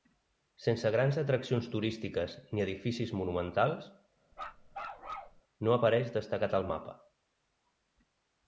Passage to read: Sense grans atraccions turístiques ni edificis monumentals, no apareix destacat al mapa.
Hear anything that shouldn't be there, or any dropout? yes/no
yes